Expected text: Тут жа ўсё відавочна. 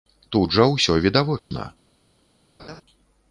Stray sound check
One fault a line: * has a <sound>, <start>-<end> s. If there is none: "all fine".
* has a dropout, 1.4-1.5 s
* has a laugh, 2.6-2.8 s